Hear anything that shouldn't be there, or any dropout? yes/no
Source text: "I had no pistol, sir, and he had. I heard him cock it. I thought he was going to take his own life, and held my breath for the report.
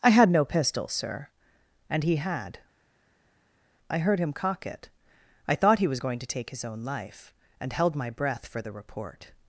no